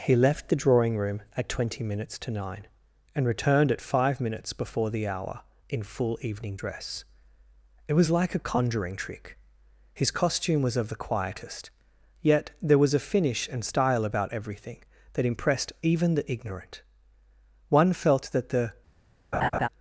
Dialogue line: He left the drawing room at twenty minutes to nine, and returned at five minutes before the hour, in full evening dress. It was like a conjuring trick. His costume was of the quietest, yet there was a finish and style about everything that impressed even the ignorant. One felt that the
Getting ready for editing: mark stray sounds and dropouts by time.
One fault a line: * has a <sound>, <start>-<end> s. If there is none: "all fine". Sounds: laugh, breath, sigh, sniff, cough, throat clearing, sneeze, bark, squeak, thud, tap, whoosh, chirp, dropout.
* has a laugh, 19.3-19.7 s